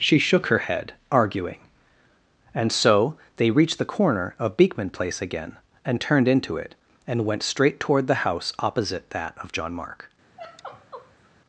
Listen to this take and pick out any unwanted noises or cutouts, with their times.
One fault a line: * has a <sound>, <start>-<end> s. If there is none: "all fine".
* has a sigh, 10.4-11.3 s